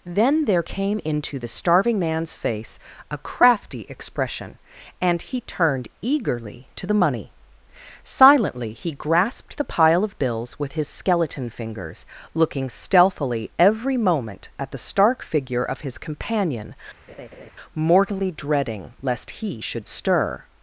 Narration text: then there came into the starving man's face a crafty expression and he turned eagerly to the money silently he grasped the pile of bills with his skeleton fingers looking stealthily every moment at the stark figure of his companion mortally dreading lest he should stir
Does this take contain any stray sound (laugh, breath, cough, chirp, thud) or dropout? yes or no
yes